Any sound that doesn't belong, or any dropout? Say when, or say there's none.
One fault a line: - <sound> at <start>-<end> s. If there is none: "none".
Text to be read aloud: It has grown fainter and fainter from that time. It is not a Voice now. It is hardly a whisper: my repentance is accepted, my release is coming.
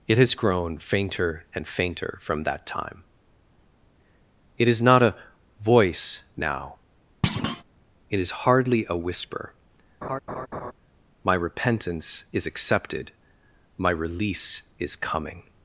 - thud at 7.2-7.6 s
- laugh at 10.0-10.7 s